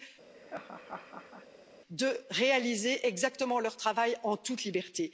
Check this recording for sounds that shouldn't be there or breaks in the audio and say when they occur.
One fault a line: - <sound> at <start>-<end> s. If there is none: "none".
- laugh at 0.3-1.5 s